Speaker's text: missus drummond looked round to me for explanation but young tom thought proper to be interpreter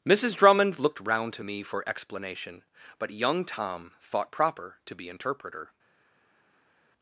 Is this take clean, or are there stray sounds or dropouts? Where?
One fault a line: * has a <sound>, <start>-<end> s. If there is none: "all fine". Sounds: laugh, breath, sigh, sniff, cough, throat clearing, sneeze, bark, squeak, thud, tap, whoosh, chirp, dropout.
all fine